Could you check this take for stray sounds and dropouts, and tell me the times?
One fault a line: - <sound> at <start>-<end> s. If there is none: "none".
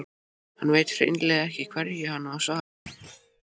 - thud at 2.9-3.4 s